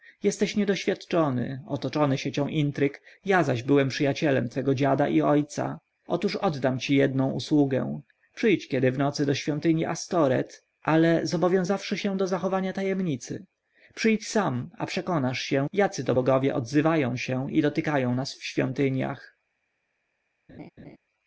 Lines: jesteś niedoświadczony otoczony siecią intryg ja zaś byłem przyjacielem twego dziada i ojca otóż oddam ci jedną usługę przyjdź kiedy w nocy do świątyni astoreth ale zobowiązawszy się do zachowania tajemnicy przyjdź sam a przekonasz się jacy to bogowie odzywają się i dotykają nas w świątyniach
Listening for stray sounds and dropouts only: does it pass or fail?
fail